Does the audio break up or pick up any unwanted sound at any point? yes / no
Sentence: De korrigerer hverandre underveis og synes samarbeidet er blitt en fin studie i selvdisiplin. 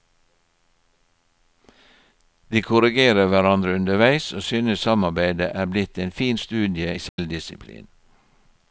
yes